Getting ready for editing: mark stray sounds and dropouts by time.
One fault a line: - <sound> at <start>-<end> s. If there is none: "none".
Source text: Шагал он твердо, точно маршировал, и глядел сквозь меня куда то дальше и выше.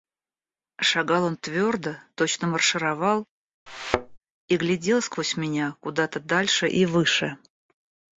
- thud at 3.7-4.2 s